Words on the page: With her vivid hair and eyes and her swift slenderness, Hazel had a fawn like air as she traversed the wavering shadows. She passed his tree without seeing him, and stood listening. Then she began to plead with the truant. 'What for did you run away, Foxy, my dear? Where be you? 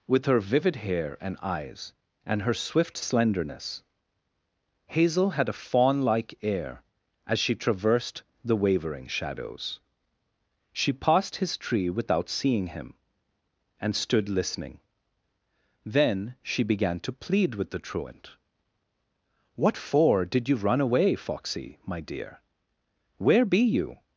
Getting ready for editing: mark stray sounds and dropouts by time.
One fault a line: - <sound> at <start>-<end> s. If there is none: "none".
none